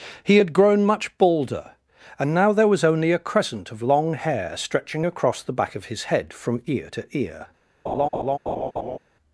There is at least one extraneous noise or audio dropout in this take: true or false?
true